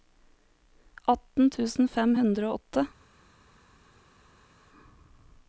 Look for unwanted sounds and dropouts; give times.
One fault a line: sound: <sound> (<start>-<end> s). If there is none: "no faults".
no faults